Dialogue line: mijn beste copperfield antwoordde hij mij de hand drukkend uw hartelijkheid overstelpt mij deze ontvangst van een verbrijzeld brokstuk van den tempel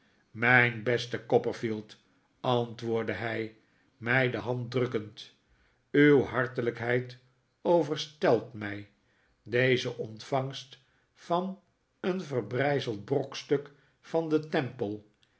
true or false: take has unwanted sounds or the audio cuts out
false